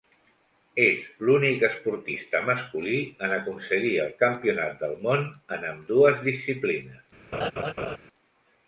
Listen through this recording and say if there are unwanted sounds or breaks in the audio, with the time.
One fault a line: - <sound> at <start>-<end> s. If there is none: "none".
- laugh at 7.3-8.0 s